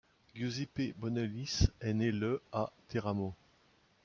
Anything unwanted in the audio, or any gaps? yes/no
no